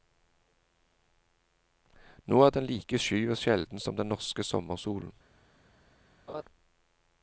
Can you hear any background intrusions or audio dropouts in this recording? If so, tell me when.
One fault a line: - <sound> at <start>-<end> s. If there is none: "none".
- laugh at 6.3-6.4 s